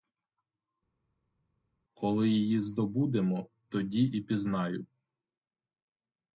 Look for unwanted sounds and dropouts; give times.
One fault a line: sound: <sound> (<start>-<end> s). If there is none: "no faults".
no faults